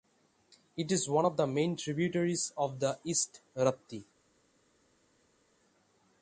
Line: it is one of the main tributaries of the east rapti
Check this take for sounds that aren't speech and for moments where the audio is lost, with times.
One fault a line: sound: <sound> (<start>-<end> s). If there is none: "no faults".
no faults